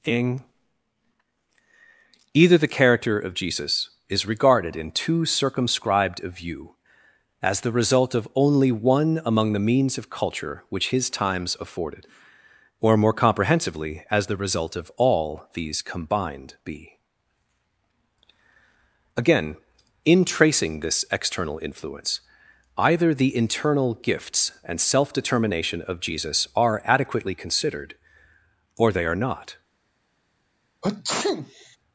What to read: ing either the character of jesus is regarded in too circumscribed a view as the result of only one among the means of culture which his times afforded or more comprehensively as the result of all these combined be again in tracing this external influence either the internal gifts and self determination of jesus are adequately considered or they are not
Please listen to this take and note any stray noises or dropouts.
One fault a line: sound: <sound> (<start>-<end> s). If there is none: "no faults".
sound: sneeze (30.8-31.8 s)